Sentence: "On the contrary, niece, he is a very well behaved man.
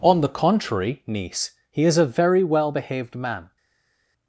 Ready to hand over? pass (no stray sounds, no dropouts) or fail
pass